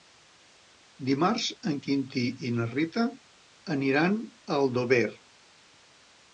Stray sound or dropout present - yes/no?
no